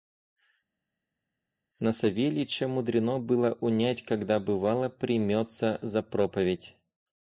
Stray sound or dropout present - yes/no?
no